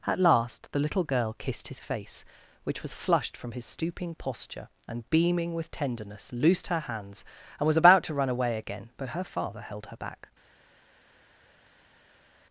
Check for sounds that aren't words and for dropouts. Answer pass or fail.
pass